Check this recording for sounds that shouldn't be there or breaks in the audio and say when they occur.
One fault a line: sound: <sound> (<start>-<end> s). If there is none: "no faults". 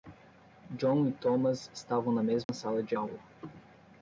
sound: dropout (2.4-2.5 s)